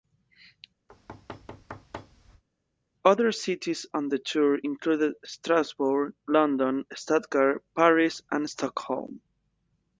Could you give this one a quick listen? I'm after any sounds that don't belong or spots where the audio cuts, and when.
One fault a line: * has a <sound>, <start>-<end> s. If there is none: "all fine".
* has a thud, 0.9-2.4 s